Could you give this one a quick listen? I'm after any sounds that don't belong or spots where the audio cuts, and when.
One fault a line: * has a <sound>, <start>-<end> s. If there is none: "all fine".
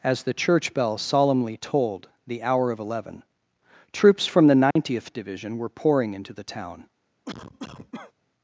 * has a dropout, 4.7-4.8 s
* has a cough, 7.2-8.1 s